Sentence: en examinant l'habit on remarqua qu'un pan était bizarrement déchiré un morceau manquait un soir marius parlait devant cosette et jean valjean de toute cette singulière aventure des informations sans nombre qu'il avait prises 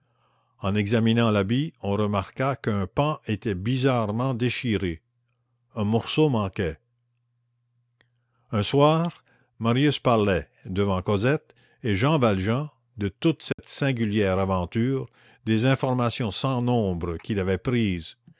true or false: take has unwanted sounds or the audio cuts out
true